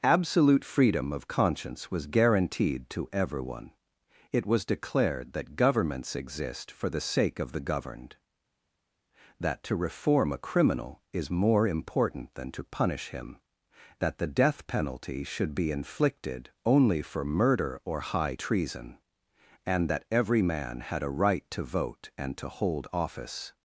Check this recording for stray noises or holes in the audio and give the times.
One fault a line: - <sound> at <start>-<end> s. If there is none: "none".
none